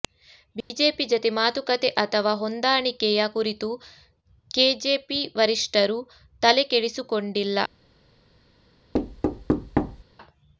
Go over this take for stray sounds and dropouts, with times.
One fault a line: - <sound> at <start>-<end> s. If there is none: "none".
- dropout at 0.6-0.7 s
- thud at 8.9-10.0 s